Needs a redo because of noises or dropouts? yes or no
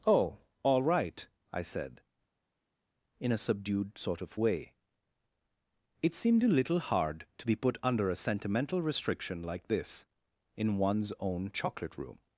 no